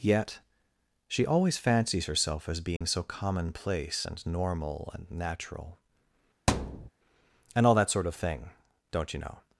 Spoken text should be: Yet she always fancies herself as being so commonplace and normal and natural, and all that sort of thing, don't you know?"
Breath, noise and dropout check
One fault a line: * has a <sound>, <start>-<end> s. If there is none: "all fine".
* has a dropout, 2.8-2.8 s
* has a thud, 6.5-6.9 s